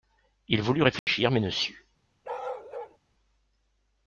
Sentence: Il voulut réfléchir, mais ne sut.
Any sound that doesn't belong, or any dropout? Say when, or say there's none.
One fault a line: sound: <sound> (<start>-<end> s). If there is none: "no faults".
sound: dropout (1.0-1.1 s)
sound: bark (2.2-3.0 s)